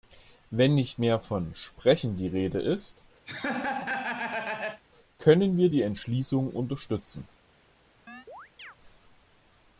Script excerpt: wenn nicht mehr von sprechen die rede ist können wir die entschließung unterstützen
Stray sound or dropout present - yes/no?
yes